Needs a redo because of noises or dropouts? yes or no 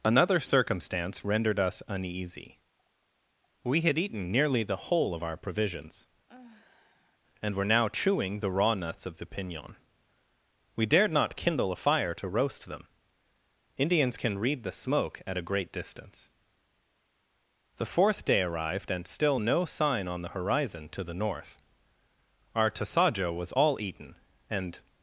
yes